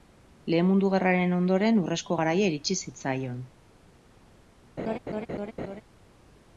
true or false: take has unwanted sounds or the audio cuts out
true